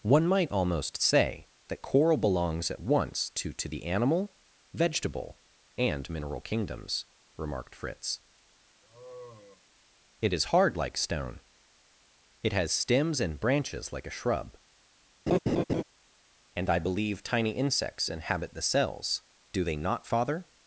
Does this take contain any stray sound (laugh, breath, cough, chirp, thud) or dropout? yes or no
yes